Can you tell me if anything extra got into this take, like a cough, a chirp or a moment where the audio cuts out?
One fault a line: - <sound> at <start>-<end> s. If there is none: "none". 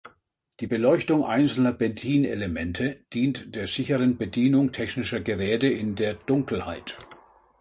none